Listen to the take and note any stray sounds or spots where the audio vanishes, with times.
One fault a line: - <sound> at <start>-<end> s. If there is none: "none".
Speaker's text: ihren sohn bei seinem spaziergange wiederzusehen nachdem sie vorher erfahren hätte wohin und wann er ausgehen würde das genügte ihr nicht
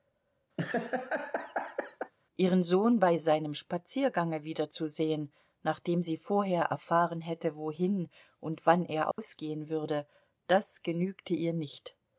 - laugh at 0.6-2.1 s
- dropout at 9.1-9.2 s